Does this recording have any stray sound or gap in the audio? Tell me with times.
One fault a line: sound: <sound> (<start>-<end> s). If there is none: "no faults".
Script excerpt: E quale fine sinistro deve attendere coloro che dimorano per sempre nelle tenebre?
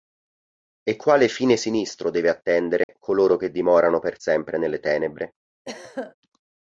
sound: dropout (2.8-2.9 s)
sound: throat clearing (5.6-6.1 s)